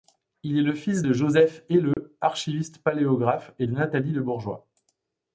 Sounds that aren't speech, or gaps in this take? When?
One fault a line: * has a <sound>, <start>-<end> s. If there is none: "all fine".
* has a dropout, 1.9-2.0 s